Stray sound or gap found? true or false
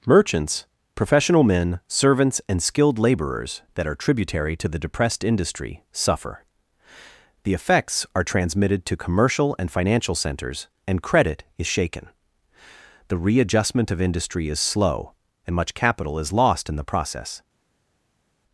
false